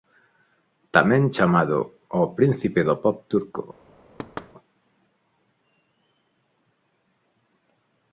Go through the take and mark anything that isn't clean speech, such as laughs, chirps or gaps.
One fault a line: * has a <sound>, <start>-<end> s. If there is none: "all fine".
* has a thud, 4.2-4.5 s